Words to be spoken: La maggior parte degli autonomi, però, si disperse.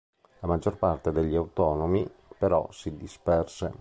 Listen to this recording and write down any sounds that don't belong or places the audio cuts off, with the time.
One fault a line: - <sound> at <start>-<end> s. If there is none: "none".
none